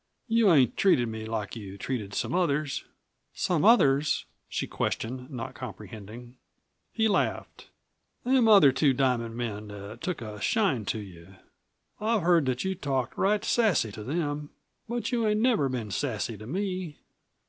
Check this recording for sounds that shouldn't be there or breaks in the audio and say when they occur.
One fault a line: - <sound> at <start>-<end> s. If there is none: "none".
none